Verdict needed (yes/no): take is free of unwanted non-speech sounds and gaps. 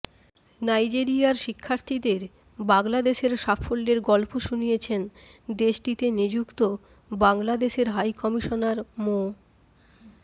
yes